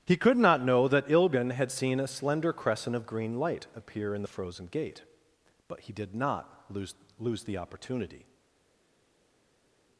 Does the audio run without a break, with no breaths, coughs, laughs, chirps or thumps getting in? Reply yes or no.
yes